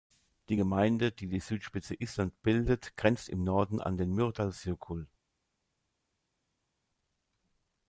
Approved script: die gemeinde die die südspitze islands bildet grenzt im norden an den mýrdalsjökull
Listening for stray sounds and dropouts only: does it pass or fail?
pass